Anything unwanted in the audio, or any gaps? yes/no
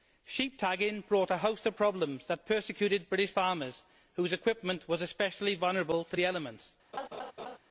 yes